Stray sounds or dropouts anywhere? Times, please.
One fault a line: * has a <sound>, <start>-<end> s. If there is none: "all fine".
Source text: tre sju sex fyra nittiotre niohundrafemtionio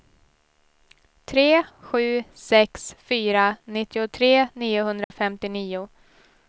* has a dropout, 5.0-5.1 s